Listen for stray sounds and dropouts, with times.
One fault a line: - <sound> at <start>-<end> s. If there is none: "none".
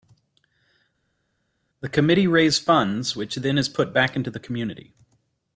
none